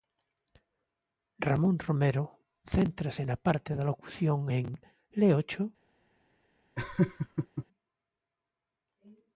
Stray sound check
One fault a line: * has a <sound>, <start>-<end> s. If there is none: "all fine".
* has a laugh, 6.8-7.7 s